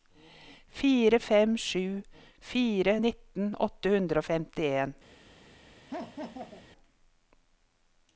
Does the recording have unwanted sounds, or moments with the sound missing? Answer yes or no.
yes